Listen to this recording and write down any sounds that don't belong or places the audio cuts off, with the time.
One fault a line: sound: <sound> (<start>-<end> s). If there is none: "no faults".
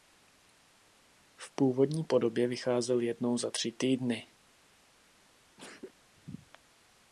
sound: sneeze (5.6-5.9 s)